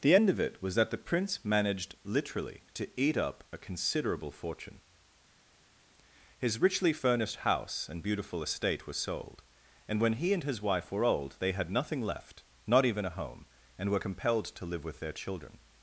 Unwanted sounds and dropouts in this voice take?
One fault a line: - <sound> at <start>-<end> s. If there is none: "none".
none